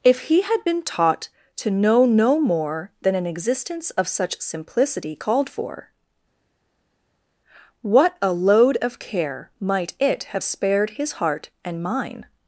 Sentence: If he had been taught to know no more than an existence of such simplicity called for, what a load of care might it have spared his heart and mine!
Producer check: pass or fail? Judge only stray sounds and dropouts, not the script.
pass